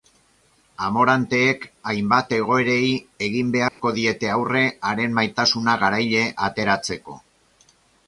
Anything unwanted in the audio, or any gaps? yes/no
yes